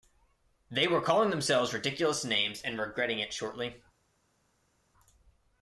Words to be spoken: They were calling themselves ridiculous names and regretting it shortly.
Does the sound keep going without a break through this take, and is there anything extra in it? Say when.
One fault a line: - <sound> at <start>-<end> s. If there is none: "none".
none